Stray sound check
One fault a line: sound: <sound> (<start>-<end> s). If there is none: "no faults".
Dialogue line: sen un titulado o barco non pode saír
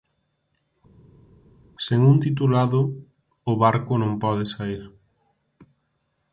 no faults